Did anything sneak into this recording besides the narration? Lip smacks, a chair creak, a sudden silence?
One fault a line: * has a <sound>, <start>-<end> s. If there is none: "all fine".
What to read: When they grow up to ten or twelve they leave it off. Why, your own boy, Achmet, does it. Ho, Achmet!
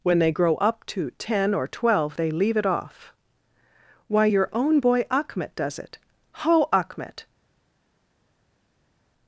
all fine